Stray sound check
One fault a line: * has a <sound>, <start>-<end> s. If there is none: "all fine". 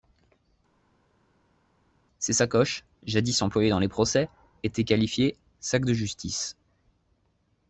all fine